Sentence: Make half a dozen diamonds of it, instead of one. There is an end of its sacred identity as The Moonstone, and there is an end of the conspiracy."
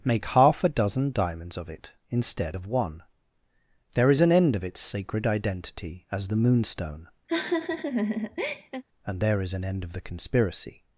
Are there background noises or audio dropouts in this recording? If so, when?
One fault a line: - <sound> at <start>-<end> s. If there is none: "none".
- laugh at 7.3-8.8 s